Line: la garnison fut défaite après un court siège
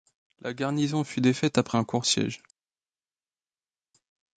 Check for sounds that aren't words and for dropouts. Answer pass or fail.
pass